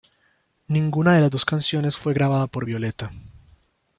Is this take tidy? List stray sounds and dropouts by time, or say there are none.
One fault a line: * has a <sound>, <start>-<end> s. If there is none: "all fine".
all fine